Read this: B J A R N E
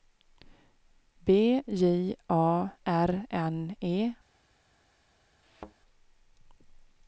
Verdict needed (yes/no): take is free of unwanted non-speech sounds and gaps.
no